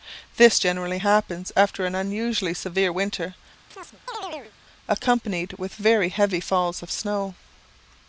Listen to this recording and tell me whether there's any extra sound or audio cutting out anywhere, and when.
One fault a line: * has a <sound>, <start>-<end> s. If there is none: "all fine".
* has a chirp, 3.7-4.5 s